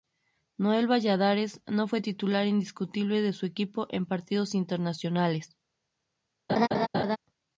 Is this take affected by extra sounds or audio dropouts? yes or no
yes